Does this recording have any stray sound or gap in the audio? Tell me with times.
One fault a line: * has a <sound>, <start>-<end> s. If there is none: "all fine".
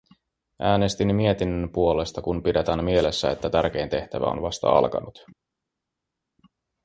all fine